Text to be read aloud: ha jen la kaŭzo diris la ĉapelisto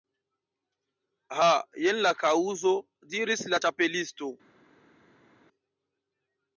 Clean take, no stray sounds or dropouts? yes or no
yes